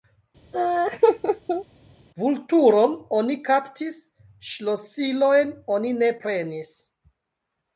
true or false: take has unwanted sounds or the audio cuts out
true